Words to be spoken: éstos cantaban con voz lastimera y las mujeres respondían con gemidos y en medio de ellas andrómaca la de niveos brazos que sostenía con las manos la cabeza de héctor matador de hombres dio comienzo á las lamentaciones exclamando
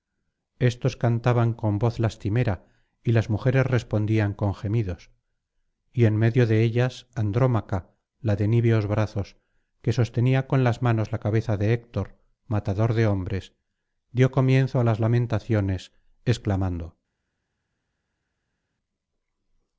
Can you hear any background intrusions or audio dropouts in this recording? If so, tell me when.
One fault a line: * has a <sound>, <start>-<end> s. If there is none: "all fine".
all fine